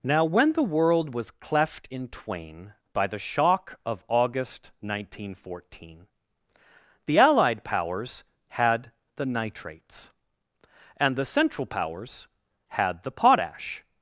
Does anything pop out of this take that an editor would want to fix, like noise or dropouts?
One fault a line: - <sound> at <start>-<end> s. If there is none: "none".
none